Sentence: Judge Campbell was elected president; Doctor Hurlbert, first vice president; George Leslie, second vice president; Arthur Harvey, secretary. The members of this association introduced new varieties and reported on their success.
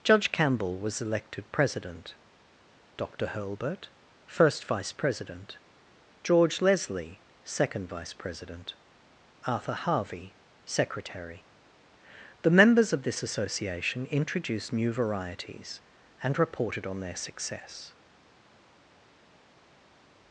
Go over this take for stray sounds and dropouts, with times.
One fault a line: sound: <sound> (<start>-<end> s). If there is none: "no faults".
no faults